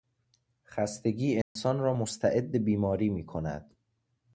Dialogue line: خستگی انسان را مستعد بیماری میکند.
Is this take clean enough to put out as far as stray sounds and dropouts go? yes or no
no